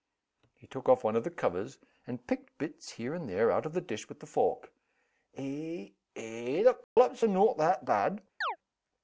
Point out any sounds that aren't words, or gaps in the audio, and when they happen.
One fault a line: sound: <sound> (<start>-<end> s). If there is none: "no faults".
sound: dropout (6.8-7.0 s)
sound: chirp (8.4-8.6 s)